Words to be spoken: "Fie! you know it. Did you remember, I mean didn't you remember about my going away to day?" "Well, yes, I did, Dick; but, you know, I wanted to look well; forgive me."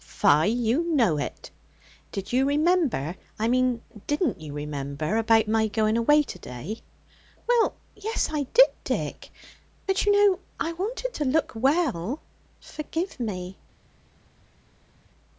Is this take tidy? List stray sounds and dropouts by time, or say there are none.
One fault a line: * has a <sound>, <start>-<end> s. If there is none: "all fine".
all fine